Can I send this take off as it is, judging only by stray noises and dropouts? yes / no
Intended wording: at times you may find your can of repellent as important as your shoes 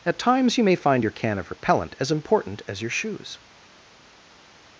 yes